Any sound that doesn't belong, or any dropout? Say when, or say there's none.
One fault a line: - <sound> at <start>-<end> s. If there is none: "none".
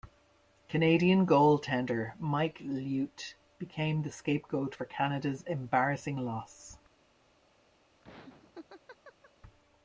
- laugh at 8.0-9.3 s